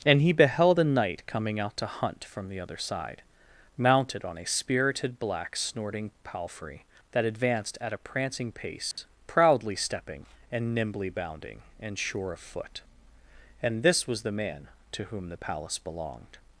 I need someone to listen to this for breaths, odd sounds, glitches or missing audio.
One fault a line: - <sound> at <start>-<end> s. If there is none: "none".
- dropout at 8.9-9.0 s